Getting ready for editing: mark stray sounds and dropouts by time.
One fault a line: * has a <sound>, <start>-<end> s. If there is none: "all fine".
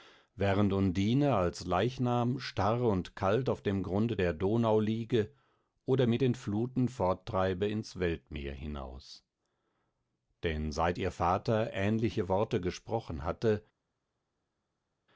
all fine